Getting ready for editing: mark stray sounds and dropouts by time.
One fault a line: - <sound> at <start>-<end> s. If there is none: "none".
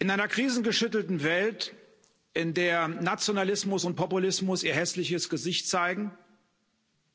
none